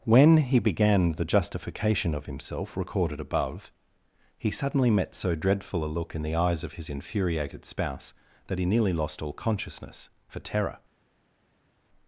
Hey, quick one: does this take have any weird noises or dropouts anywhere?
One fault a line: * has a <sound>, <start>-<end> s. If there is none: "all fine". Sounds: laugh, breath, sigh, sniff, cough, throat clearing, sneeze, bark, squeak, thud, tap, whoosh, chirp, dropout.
all fine